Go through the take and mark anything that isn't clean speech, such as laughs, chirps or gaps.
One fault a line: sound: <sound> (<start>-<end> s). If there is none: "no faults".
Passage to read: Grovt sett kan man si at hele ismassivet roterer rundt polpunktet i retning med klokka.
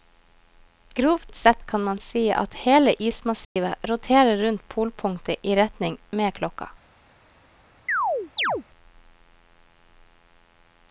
sound: dropout (3.4-3.6 s)
sound: chirp (7.9-8.6 s)